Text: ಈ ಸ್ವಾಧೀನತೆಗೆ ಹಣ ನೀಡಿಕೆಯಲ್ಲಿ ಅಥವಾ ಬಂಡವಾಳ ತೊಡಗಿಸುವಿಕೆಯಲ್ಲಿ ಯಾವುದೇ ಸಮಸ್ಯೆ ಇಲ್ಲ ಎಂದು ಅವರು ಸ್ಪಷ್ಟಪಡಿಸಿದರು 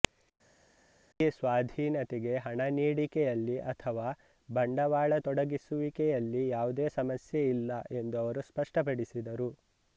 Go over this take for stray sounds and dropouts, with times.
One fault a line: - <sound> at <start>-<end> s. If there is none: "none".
none